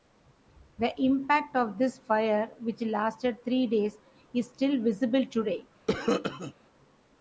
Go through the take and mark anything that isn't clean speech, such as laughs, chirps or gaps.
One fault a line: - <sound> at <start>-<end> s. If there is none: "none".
- cough at 5.9-6.5 s